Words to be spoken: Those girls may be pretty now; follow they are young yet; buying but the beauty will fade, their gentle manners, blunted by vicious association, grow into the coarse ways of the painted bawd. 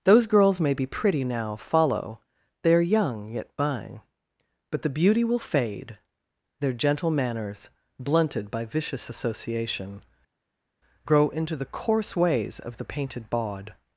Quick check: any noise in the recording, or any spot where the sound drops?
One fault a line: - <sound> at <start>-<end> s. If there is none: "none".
none